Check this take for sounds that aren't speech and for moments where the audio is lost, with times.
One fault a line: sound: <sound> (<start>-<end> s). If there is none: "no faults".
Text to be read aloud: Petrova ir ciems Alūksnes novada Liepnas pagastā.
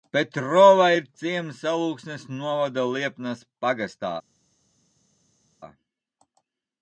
no faults